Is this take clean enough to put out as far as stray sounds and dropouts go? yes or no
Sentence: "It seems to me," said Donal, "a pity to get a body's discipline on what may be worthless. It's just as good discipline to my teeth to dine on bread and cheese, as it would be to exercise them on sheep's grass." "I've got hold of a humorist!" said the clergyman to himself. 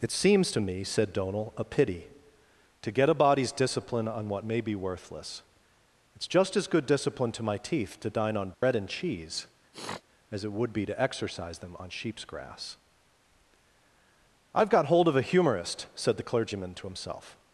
no